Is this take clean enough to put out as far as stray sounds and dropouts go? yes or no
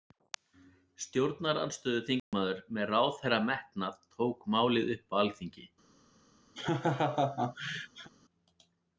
no